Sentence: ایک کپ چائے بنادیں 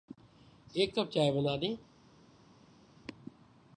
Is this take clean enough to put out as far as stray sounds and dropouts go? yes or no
yes